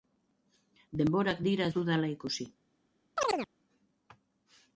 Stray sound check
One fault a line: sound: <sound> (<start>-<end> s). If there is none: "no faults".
sound: chirp (3.2-3.5 s)